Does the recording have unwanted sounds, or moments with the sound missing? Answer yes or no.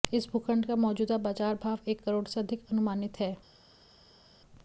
no